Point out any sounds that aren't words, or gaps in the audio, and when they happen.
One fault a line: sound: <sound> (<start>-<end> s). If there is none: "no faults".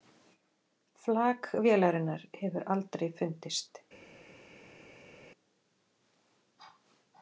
no faults